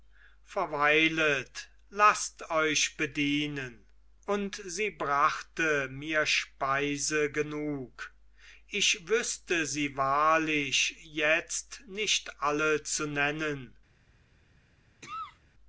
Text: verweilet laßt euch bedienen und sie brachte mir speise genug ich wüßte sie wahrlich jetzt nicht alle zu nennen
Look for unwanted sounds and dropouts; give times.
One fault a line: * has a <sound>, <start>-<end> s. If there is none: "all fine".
* has a cough, 15.0-15.4 s